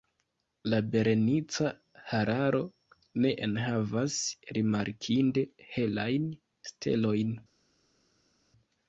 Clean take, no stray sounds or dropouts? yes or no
yes